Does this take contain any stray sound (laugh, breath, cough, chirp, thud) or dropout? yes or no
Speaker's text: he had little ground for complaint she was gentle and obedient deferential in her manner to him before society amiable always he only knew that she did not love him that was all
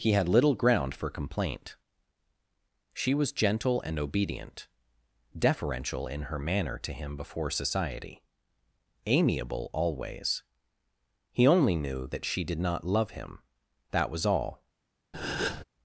yes